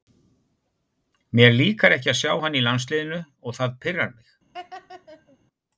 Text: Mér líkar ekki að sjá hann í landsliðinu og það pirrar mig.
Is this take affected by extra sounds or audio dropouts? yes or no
yes